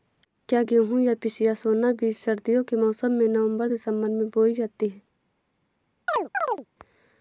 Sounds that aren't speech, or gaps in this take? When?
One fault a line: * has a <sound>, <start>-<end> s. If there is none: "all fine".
* has a chirp, 6.1-6.7 s